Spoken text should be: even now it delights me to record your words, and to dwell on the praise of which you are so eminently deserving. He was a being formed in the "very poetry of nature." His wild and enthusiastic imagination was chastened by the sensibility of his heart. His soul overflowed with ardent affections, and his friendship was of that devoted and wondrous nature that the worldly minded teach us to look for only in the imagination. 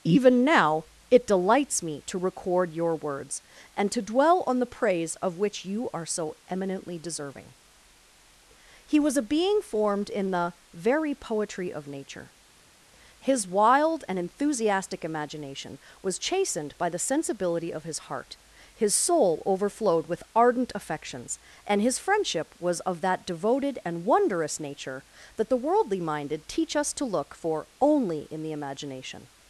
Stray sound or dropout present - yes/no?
no